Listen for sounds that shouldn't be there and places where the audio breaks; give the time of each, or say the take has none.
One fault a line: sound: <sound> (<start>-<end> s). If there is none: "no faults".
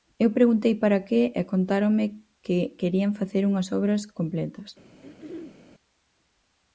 sound: throat clearing (5.0-5.6 s)